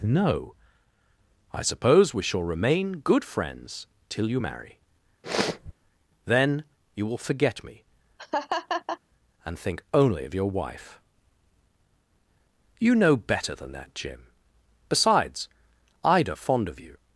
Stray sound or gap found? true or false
true